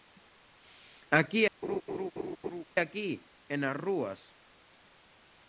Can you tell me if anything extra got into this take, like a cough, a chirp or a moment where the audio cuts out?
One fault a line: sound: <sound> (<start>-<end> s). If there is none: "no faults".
sound: laugh (1.6-2.6 s)